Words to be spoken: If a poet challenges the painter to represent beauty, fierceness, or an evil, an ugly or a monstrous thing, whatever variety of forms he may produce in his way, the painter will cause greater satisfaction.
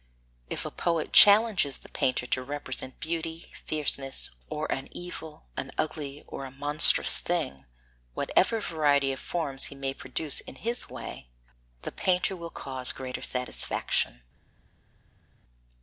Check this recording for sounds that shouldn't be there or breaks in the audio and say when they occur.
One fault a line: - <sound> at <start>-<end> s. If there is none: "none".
none